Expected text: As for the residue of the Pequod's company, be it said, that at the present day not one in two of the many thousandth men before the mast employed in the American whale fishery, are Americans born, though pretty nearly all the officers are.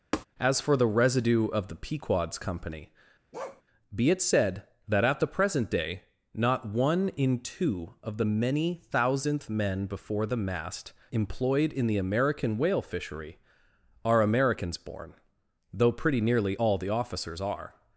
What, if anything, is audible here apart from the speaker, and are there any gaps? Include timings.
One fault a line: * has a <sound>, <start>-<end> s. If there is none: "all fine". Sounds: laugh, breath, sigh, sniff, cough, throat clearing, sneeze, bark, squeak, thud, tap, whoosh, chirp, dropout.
* has a tap, 0.1-0.3 s
* has a bark, 3.3-3.6 s